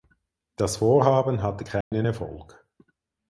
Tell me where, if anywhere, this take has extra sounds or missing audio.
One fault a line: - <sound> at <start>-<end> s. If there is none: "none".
- dropout at 1.8-1.9 s